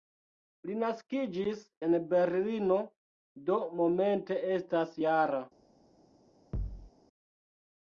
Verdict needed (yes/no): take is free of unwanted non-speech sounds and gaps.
no